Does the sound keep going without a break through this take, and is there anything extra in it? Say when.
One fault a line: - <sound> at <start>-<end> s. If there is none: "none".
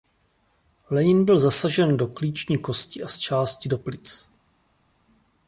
none